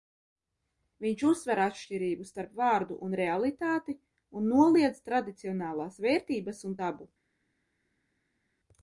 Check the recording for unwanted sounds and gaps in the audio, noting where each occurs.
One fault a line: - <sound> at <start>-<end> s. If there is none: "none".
none